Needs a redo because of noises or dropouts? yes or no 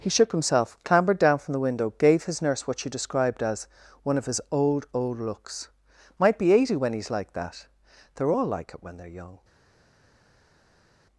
no